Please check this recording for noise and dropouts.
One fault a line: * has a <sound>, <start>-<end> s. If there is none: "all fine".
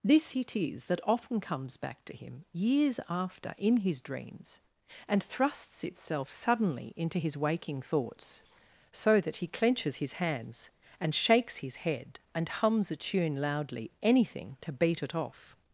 all fine